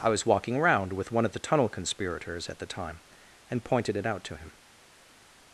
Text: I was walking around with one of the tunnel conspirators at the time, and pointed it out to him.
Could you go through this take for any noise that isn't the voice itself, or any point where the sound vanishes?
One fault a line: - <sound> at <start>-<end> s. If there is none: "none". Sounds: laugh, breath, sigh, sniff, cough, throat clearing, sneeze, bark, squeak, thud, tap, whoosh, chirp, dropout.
none